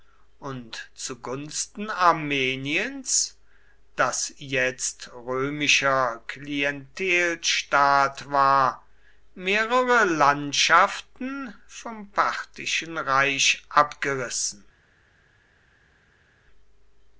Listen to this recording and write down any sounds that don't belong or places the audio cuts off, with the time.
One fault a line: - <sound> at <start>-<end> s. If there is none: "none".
none